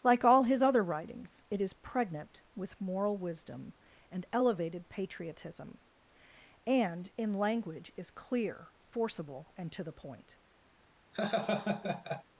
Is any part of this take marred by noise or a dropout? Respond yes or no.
yes